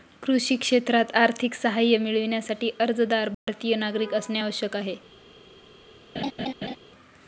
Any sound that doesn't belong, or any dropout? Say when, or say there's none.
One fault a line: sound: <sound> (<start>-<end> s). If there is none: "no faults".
sound: dropout (3.3-3.5 s)
sound: laugh (6.1-6.8 s)